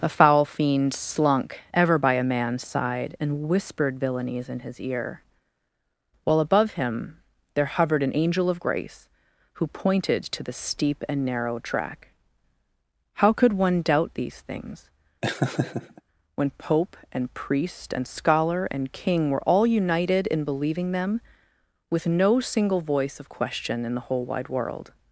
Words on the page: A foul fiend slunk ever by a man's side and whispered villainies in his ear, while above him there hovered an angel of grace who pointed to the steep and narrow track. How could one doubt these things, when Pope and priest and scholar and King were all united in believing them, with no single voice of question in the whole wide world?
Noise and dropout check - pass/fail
fail